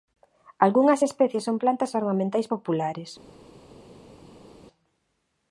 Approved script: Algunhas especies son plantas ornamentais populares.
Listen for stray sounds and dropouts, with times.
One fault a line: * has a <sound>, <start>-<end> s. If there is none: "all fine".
all fine